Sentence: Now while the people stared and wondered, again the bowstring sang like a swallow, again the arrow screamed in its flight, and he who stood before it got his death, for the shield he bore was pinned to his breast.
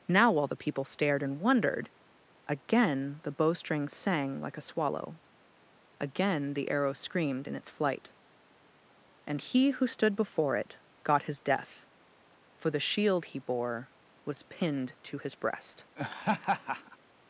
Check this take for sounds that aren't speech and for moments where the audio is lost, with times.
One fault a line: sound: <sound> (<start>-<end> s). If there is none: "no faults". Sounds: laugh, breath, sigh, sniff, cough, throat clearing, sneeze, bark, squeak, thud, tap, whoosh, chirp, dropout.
sound: laugh (16.0-17.0 s)